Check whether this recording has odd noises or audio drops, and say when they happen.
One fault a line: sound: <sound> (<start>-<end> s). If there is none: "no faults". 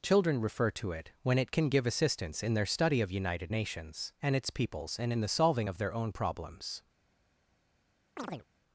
sound: chirp (8.2-8.4 s)